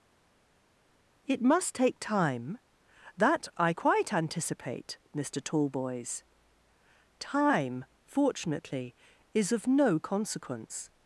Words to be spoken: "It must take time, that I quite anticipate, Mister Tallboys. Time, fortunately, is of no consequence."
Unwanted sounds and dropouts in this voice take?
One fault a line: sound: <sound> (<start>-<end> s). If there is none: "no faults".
no faults